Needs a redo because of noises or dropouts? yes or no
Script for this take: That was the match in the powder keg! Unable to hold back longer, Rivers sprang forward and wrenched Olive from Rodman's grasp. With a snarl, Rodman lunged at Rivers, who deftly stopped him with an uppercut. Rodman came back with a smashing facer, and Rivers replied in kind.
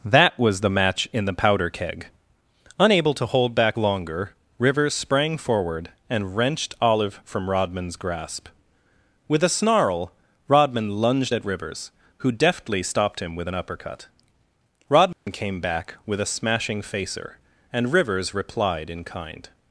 yes